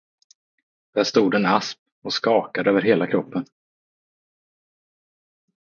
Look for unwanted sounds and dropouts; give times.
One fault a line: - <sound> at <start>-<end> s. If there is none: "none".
none